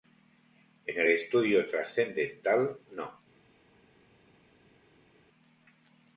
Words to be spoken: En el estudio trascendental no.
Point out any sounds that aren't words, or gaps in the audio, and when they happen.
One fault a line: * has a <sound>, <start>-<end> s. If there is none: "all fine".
all fine